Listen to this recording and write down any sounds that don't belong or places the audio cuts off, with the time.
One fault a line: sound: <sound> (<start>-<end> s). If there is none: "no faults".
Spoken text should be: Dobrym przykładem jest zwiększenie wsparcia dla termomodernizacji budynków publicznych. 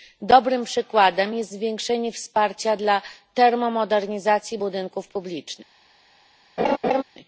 sound: laugh (6.6-7.0 s)